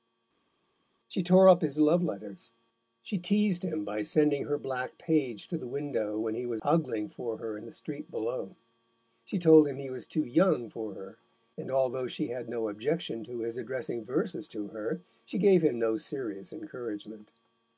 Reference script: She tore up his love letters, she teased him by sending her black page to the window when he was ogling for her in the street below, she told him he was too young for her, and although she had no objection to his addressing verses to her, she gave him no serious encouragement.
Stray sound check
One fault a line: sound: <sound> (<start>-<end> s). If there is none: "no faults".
no faults